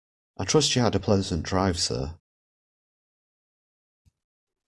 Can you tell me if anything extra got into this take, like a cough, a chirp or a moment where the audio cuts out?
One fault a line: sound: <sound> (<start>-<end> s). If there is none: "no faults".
no faults